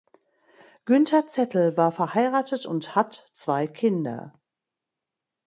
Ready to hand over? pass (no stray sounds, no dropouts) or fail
pass